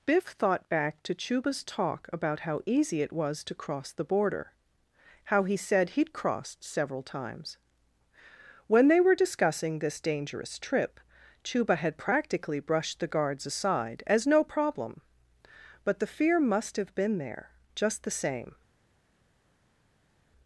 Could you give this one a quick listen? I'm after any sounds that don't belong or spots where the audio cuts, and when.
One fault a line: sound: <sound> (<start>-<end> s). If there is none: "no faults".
no faults